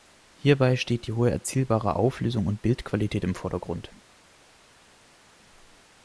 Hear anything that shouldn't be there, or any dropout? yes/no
no